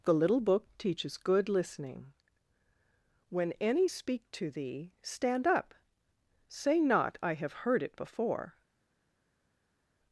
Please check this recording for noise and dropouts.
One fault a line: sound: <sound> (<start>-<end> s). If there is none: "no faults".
no faults